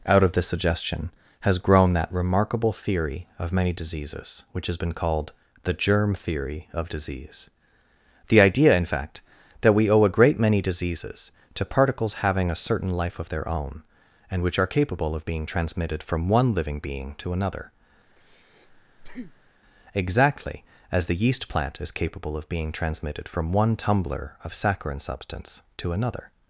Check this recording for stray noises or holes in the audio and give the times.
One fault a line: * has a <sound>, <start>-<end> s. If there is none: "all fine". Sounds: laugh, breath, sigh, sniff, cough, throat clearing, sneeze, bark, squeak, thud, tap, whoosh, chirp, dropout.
* has a breath, 18.1-19.6 s